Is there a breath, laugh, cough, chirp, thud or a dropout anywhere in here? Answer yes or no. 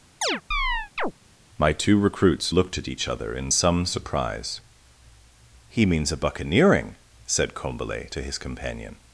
yes